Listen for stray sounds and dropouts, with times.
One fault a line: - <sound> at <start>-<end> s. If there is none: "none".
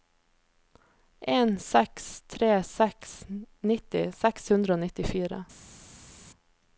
none